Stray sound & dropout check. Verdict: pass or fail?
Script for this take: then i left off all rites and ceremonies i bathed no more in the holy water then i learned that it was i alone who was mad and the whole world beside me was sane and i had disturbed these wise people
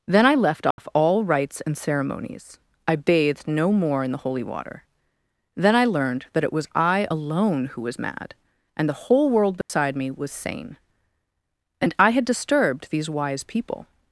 fail